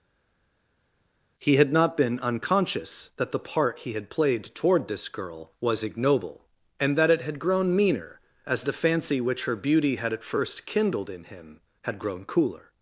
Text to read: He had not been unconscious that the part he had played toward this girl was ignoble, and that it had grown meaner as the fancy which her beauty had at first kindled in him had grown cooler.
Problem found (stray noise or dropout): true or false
false